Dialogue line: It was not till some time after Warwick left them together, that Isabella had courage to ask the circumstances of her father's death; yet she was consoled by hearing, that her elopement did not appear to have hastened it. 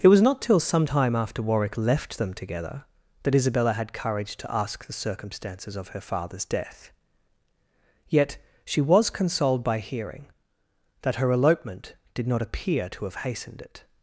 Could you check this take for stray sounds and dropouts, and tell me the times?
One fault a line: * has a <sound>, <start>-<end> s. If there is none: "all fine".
all fine